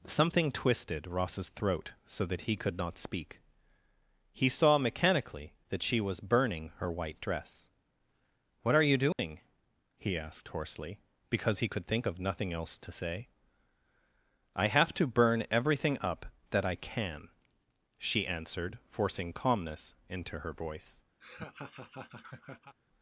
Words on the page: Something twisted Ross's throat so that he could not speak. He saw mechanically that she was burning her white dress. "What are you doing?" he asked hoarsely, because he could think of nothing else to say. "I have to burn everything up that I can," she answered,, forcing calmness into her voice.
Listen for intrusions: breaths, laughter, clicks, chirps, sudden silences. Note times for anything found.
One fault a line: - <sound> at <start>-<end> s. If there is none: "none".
- dropout at 9.1-9.2 s
- laugh at 21.2-22.8 s